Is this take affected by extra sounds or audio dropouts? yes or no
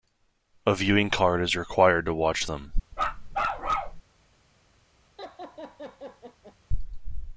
yes